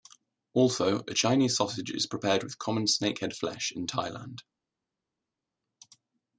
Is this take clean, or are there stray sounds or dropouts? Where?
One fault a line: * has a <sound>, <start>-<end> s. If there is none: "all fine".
all fine